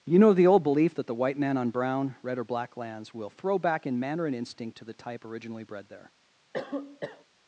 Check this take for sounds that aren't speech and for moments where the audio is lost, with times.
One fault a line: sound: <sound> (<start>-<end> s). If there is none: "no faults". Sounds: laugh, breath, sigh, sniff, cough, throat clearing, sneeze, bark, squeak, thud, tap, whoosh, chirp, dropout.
sound: cough (6.5-7.2 s)